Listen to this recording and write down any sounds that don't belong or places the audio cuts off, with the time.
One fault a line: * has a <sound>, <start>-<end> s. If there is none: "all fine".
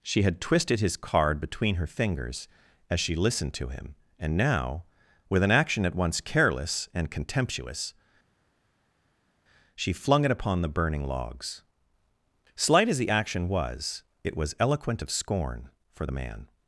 all fine